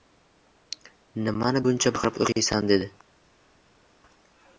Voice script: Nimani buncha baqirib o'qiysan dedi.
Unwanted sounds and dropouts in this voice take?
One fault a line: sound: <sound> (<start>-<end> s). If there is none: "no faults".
no faults